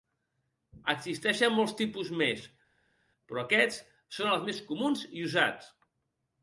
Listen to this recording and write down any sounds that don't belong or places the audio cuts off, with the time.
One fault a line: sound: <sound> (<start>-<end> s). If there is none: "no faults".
no faults